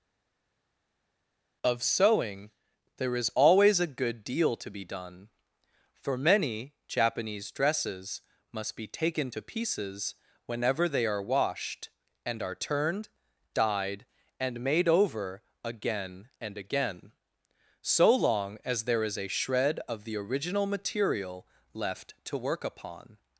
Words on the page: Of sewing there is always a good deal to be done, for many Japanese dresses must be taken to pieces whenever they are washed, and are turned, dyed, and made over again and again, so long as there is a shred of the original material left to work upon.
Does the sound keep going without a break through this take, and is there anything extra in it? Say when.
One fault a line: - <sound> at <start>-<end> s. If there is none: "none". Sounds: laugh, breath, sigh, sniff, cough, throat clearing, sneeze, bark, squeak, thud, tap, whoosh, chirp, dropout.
none